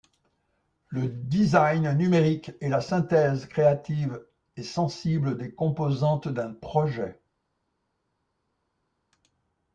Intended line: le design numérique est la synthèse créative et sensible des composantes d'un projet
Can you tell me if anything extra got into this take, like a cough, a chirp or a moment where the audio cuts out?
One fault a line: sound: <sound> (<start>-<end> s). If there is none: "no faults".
no faults